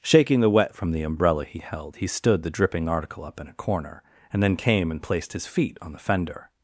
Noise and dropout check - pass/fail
pass